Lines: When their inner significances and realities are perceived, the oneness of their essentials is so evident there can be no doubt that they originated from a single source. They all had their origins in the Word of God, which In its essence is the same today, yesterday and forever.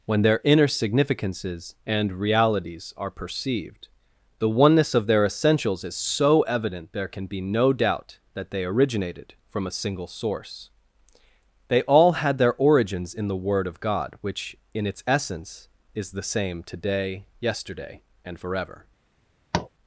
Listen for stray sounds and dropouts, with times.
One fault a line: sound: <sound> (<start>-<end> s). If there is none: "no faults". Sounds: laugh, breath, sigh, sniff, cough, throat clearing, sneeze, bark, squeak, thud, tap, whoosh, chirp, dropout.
sound: tap (19.5-19.7 s)